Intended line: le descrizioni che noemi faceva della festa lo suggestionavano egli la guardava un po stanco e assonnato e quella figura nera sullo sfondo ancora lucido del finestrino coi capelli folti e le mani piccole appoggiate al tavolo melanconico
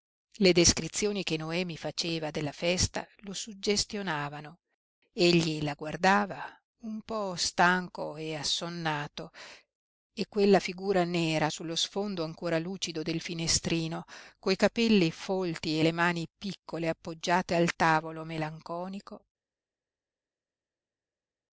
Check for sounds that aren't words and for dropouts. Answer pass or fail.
pass